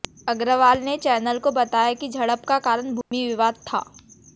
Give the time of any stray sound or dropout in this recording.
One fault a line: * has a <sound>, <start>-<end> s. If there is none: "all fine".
* has a dropout, 3.0-3.1 s